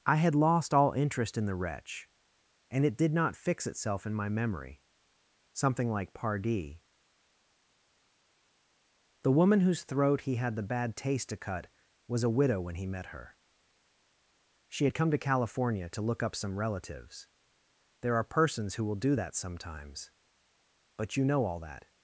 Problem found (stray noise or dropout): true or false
false